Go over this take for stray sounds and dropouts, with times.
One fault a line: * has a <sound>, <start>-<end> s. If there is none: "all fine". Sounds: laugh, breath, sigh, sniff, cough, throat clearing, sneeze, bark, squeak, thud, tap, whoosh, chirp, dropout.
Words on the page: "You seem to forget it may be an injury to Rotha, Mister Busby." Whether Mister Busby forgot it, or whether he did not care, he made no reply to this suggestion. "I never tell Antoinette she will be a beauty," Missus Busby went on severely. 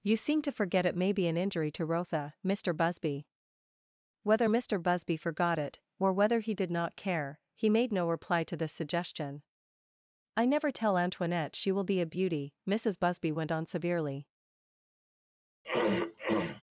* has a throat clearing, 15.6-16.6 s